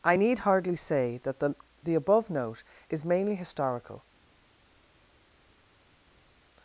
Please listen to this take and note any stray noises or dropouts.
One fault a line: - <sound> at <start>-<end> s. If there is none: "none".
none